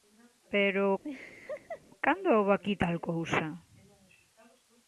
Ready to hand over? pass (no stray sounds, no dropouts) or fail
fail